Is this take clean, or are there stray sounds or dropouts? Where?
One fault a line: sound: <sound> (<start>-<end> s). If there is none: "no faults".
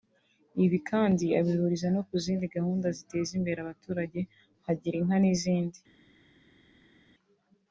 no faults